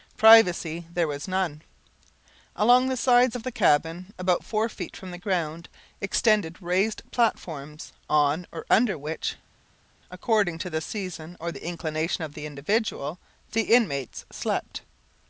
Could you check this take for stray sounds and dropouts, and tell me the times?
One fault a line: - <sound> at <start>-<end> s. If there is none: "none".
none